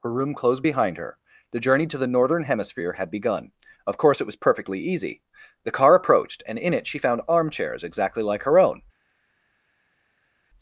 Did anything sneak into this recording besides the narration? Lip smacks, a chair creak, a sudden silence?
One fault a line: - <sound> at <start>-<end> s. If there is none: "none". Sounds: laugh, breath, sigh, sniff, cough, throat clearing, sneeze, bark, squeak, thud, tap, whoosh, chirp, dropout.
none